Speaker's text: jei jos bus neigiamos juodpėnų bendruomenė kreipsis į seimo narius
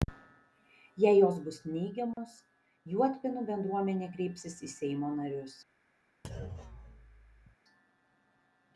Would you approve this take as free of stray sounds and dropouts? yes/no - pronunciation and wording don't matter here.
no